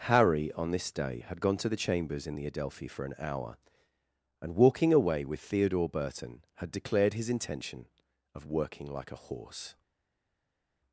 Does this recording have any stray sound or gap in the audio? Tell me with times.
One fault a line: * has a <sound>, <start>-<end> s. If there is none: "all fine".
all fine